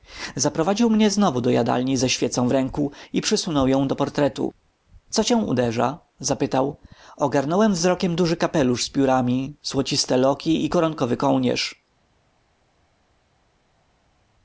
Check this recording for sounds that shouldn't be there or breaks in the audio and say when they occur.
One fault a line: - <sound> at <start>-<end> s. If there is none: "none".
none